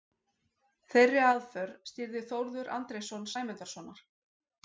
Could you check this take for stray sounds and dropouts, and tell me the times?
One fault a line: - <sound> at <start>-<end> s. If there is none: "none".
none